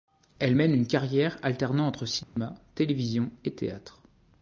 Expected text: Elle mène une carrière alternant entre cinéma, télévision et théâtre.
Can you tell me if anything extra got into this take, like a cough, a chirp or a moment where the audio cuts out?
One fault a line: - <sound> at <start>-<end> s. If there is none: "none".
- dropout at 2.2-2.4 s